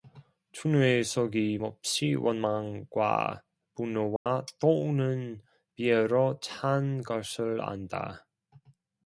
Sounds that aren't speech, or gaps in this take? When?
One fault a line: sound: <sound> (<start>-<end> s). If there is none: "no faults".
sound: dropout (4.2-4.3 s)